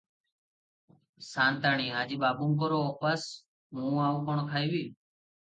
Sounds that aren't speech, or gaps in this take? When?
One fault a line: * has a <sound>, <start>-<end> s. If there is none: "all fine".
all fine